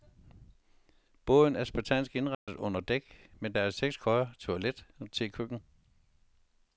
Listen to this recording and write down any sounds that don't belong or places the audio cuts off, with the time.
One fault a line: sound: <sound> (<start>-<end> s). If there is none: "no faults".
sound: dropout (2.3-2.5 s)